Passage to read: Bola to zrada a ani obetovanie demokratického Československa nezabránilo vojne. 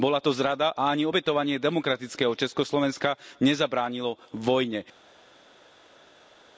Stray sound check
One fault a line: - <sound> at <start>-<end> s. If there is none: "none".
none